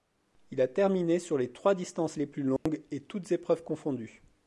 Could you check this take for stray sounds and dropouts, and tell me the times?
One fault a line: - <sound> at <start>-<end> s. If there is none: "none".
- dropout at 2.6-2.7 s